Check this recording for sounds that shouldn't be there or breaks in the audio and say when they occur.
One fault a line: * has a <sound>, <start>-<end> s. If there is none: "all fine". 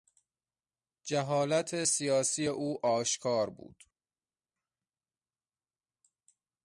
all fine